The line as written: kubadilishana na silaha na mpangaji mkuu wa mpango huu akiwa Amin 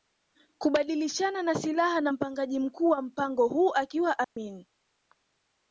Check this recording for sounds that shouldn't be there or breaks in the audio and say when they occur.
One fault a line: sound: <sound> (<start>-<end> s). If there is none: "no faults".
sound: dropout (4.2-4.4 s)